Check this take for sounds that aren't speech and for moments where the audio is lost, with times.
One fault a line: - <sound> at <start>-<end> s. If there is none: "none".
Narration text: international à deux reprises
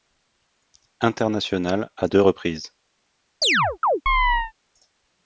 - chirp at 3.4-4.5 s